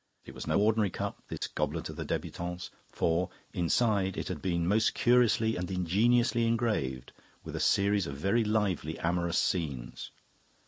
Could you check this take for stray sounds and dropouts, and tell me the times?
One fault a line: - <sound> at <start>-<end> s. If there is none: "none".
- dropout at 1.4-1.4 s